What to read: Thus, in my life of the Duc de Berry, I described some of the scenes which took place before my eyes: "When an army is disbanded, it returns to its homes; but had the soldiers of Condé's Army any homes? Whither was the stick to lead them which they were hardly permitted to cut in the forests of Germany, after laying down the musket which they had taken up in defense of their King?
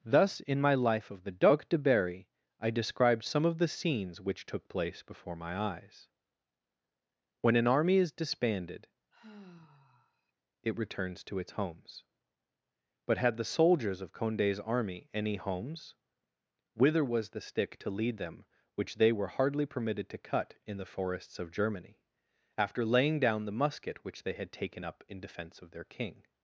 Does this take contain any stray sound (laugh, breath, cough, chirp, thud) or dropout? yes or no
yes